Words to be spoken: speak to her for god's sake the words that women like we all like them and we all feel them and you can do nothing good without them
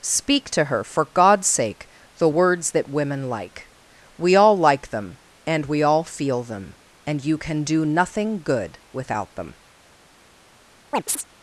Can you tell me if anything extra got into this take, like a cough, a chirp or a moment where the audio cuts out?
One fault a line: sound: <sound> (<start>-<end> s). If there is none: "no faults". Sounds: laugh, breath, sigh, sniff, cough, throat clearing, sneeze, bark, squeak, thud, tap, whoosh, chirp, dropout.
sound: chirp (10.9-11.2 s)